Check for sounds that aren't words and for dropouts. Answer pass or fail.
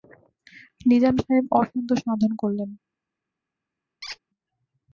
fail